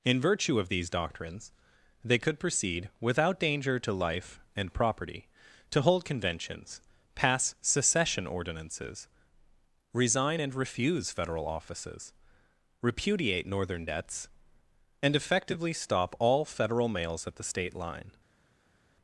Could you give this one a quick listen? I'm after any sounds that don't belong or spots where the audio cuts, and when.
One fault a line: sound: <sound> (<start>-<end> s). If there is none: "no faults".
no faults